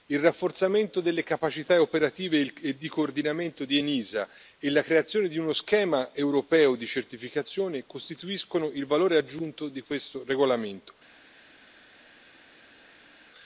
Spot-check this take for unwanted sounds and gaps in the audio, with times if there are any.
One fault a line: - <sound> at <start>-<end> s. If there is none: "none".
none